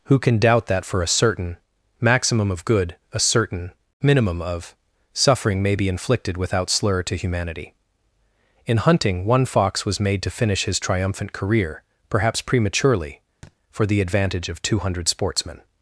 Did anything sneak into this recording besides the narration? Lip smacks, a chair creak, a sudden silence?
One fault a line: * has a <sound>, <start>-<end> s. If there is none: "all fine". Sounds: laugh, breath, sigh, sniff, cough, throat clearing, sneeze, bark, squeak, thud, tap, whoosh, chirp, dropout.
* has a thud, 13.4-13.6 s